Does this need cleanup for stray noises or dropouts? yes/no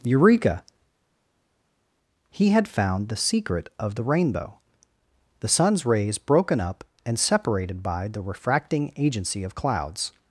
no